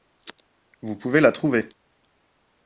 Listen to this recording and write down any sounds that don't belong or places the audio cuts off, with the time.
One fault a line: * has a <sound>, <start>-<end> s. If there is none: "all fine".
all fine